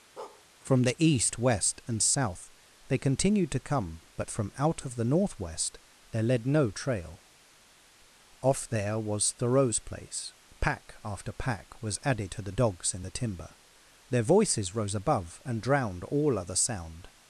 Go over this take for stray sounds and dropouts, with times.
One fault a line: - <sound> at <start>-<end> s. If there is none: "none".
- bark at 0.2-0.5 s